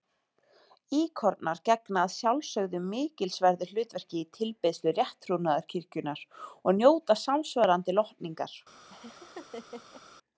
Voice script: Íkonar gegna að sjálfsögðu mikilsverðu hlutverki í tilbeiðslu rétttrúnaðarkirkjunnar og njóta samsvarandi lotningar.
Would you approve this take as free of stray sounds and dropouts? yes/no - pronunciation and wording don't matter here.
no